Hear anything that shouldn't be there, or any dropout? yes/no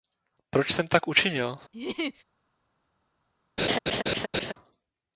yes